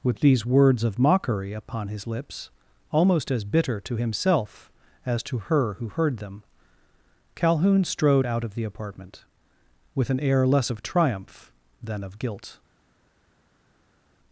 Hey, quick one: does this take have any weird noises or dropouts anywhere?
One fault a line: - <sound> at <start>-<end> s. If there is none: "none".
none